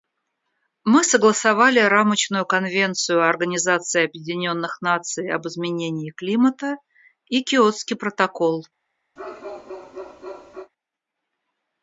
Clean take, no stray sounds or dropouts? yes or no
no